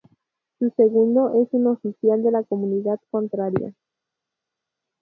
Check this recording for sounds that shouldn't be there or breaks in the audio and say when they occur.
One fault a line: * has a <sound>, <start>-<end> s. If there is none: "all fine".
all fine